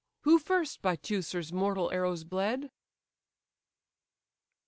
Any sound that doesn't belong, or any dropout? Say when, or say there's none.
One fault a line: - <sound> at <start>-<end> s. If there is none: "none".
none